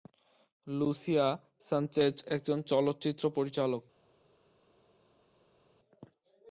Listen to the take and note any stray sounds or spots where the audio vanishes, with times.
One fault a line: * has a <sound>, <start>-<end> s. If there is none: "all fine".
all fine